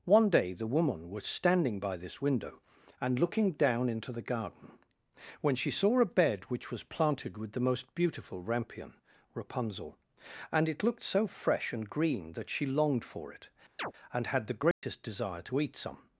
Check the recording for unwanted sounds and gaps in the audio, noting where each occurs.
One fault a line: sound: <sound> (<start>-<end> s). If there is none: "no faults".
sound: chirp (13.8-13.9 s)
sound: dropout (14.7-14.8 s)